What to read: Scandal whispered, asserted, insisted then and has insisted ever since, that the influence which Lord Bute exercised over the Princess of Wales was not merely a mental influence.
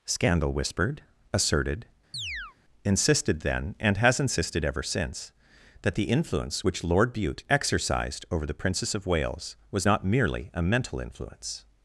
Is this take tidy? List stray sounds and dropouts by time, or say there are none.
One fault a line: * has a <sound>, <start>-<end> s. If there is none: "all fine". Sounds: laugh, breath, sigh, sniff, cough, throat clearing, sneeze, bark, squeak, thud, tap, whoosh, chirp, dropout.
* has a chirp, 2.1-2.6 s